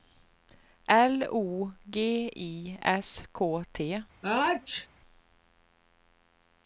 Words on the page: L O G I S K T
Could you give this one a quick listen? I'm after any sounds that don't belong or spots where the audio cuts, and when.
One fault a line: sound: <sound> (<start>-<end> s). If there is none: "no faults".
sound: sneeze (4.2-4.9 s)